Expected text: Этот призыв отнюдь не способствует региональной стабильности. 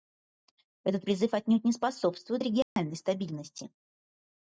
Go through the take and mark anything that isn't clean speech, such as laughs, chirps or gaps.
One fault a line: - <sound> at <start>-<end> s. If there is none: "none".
- dropout at 2.6-2.8 s